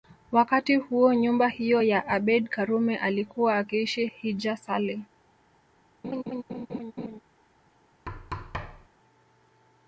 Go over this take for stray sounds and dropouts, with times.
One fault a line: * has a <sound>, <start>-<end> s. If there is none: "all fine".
* has a laugh, 6.0-7.2 s
* has a thud, 8.1-8.9 s